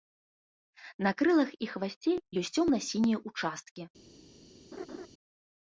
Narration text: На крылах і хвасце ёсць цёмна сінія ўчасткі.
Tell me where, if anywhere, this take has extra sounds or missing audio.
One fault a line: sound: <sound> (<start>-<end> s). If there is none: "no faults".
sound: laugh (4.7-5.1 s)